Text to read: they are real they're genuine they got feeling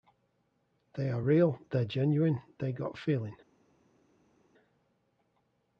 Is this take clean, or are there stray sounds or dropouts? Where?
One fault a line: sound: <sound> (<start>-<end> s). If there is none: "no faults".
no faults